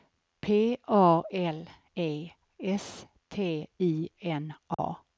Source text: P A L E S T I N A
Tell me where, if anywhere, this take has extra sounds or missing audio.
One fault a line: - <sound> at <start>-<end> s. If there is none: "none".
- dropout at 4.7-4.8 s